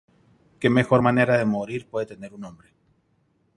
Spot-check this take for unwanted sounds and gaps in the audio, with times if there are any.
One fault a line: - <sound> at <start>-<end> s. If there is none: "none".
none